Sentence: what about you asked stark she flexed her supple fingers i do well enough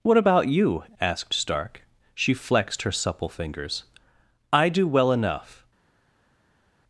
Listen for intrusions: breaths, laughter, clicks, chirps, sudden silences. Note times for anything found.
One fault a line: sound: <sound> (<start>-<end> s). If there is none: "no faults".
no faults